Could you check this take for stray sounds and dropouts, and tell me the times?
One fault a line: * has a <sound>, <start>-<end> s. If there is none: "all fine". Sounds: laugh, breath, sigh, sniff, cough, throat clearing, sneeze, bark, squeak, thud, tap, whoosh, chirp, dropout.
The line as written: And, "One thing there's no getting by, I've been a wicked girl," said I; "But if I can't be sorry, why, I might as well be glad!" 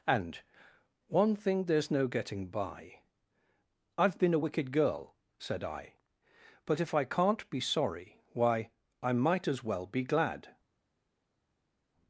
all fine